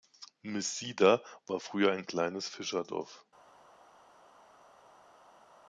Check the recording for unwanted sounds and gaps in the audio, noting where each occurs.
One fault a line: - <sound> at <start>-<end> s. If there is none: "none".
none